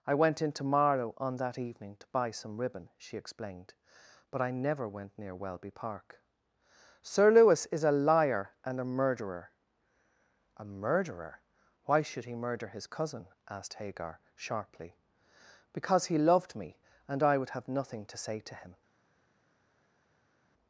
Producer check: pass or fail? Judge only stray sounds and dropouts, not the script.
pass